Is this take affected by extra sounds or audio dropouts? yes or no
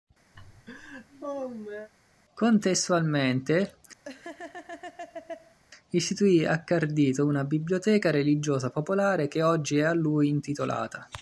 yes